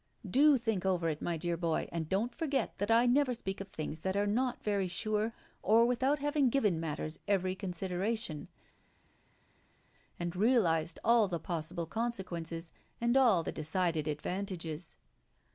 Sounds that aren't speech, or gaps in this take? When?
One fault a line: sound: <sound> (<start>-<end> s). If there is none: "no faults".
no faults